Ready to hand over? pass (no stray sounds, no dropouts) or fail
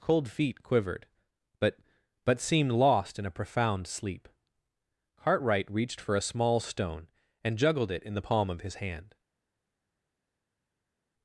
pass